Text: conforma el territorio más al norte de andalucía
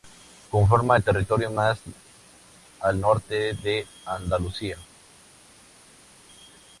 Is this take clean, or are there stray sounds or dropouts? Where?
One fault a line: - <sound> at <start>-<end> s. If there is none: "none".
none